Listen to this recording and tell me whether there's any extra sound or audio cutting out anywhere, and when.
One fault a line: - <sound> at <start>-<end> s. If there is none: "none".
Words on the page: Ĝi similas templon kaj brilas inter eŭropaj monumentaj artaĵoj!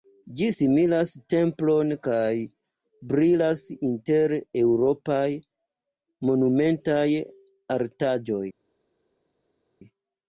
none